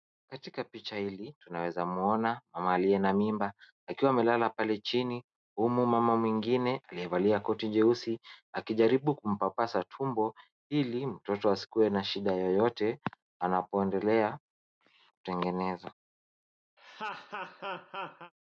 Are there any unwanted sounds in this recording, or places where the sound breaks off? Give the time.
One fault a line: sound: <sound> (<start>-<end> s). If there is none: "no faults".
sound: laugh (16.8-18.3 s)